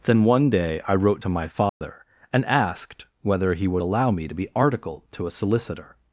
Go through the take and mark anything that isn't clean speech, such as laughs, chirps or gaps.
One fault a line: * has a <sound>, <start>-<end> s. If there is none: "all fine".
* has a dropout, 1.7-1.8 s